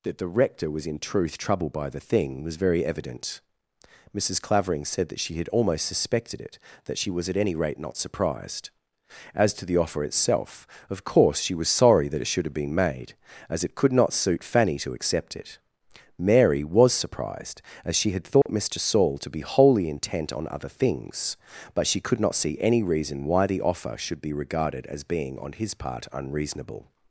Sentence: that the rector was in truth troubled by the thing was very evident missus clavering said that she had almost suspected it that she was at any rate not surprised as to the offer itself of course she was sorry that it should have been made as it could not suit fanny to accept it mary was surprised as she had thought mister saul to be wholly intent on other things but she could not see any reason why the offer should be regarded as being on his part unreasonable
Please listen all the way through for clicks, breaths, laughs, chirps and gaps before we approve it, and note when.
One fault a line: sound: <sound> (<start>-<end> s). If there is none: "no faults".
sound: dropout (18.4-18.5 s)